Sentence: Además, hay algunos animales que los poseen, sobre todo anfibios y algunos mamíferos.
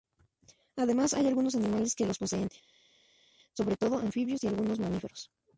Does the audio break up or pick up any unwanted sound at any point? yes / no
no